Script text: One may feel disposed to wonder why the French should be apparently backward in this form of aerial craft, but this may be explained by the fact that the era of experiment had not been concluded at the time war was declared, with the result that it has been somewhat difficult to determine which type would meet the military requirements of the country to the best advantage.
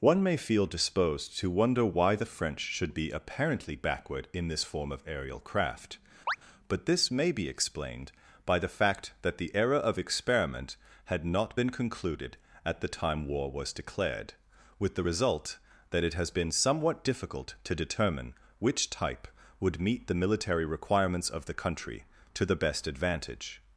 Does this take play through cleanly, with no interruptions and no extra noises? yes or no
no